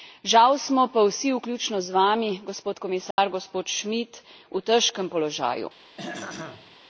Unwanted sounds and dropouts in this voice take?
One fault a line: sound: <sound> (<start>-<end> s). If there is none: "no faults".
sound: dropout (3.1-3.2 s)
sound: throat clearing (6.0-6.8 s)